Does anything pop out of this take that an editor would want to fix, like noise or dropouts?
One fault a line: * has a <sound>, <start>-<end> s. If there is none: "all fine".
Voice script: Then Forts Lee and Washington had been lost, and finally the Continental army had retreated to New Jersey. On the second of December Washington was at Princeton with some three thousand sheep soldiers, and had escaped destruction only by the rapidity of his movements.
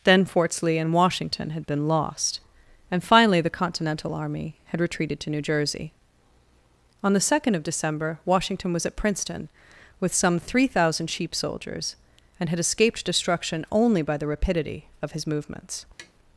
* has a tap, 16.0-16.1 s